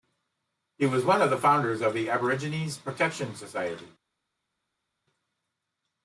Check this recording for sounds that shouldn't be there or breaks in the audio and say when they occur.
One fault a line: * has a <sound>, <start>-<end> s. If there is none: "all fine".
all fine